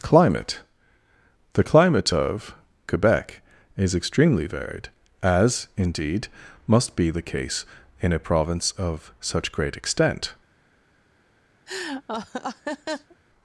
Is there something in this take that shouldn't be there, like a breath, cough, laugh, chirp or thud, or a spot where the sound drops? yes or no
yes